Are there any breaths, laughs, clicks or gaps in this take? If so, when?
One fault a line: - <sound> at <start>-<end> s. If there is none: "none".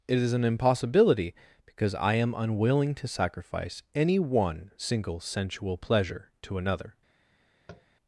- tap at 7.7-7.9 s